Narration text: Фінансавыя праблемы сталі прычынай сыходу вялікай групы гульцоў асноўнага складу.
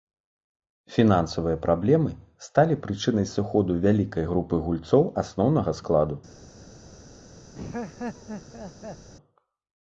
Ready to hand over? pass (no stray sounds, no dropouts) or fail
fail